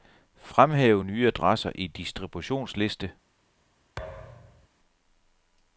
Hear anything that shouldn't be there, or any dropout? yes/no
yes